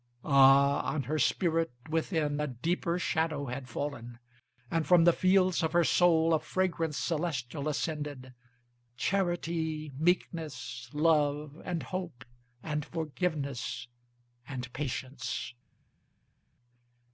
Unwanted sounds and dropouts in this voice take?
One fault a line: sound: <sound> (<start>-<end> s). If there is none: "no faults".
no faults